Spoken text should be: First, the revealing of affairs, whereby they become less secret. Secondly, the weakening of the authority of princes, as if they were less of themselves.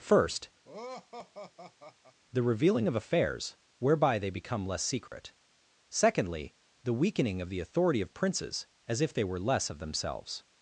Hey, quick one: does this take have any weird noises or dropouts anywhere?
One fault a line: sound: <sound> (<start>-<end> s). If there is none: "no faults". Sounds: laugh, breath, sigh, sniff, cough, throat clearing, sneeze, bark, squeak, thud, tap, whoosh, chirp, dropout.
sound: laugh (0.6-2.2 s)
sound: dropout (5.1-5.1 s)